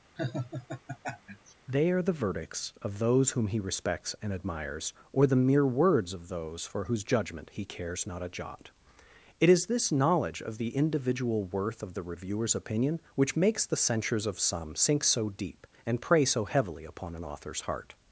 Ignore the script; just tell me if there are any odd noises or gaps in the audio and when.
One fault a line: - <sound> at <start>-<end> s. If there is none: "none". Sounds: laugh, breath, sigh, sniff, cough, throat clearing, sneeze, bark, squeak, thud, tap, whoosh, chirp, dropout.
- laugh at 0.2-1.5 s